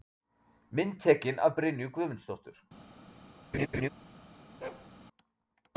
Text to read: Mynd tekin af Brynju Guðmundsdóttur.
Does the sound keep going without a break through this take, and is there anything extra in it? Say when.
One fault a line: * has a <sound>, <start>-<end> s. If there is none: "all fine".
* has a laugh, 3.5-3.9 s
* has a bark, 4.6-4.9 s